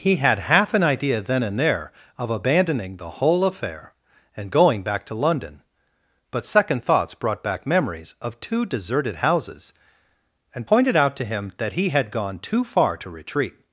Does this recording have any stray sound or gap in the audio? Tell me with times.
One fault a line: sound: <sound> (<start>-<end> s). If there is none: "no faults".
no faults